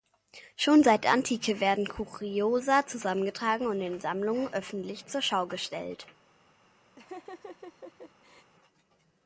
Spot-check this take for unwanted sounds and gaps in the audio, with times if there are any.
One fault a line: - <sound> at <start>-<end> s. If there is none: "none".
- laugh at 7.0-8.5 s